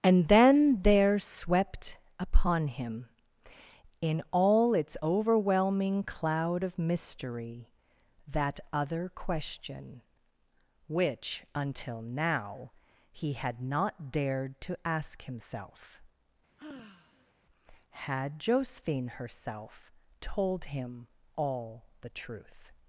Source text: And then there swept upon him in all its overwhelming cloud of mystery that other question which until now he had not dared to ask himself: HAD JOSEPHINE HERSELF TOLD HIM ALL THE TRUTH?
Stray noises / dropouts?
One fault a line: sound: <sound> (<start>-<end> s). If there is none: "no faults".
sound: sigh (16.6-17.3 s)